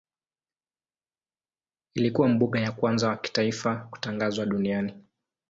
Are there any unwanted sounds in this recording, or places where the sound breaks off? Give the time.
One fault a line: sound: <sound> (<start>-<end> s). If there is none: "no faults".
no faults